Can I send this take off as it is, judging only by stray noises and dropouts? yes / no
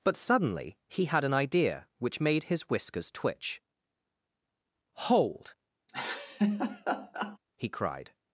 no